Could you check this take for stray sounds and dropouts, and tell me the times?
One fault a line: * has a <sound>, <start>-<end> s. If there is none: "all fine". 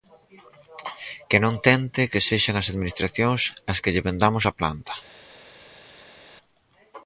all fine